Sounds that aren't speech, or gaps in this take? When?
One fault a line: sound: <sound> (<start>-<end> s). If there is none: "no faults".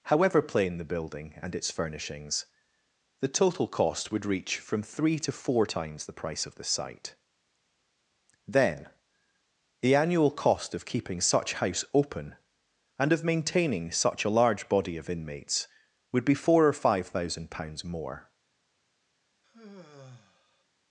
sound: sigh (19.4-20.6 s)